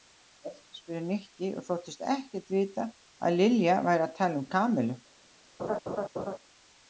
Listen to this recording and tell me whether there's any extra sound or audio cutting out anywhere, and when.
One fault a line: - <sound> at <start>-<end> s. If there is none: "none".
- laugh at 5.6-6.4 s